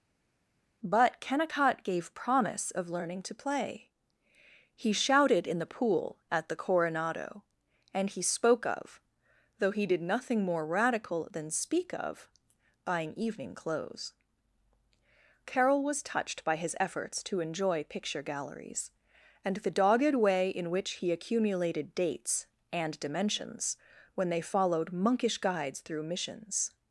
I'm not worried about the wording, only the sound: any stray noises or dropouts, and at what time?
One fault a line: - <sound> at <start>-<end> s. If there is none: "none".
none